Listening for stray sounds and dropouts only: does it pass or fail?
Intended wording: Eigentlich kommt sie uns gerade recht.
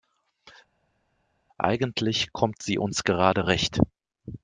pass